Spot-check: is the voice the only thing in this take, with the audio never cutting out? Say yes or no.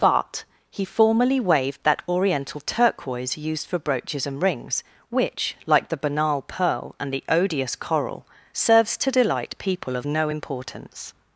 yes